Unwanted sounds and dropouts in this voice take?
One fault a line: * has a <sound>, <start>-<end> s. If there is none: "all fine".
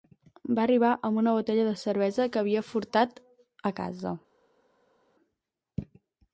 all fine